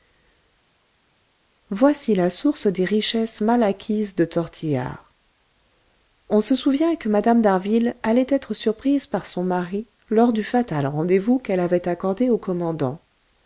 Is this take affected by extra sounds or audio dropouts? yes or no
no